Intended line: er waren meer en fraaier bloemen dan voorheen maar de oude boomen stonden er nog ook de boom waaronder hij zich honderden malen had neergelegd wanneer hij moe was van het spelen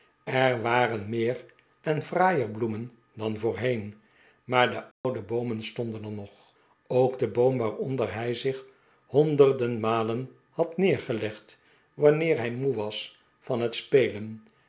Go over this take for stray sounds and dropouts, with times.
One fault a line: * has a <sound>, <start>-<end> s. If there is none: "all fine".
* has a dropout, 4.9-5.0 s